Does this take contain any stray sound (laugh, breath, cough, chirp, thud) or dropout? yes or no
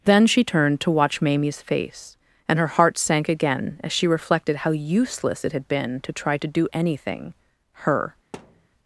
yes